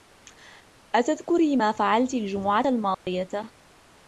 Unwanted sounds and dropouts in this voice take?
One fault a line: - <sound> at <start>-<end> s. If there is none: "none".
- dropout at 2.9-3.1 s